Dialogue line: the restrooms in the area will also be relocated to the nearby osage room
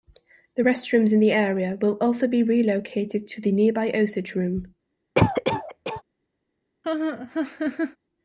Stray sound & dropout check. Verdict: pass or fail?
fail